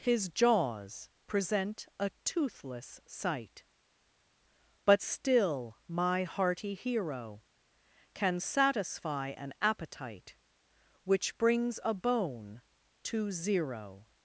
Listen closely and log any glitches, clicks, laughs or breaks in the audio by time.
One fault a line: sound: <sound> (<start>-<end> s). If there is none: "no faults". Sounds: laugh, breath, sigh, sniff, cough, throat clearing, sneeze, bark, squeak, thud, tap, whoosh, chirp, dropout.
no faults